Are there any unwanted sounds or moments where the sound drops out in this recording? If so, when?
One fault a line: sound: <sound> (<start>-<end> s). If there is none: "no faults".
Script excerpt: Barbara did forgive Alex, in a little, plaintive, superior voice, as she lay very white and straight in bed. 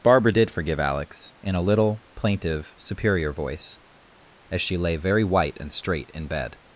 no faults